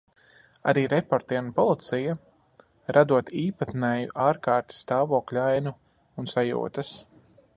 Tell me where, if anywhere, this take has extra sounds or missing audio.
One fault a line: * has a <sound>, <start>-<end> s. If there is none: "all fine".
all fine